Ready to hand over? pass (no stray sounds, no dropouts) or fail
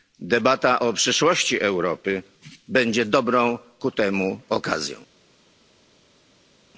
pass